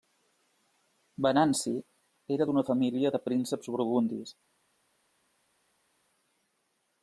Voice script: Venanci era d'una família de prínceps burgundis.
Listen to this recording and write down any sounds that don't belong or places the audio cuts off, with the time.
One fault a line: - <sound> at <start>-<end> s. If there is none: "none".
none